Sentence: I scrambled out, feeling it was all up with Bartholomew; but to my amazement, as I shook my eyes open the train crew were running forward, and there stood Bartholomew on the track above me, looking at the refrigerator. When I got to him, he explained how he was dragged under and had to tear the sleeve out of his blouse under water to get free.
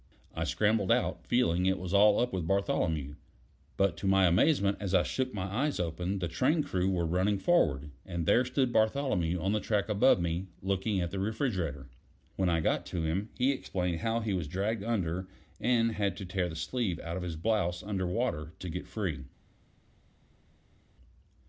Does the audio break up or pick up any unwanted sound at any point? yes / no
no